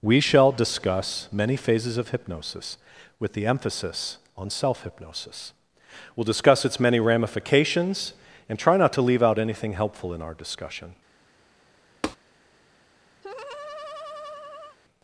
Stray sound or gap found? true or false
true